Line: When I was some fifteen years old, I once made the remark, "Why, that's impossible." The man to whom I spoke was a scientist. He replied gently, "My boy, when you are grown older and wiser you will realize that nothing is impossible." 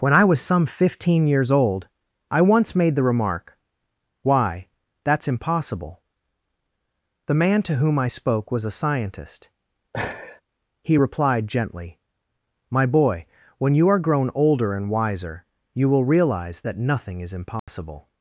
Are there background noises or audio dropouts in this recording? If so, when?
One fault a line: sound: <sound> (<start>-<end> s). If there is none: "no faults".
sound: laugh (9.9-10.4 s)
sound: dropout (17.6-17.7 s)